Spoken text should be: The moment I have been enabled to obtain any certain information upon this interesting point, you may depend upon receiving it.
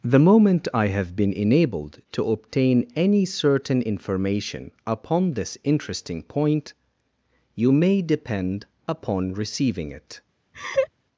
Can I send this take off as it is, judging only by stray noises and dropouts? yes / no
no